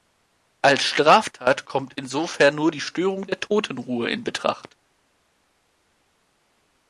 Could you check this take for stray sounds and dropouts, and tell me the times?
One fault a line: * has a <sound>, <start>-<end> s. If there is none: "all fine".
all fine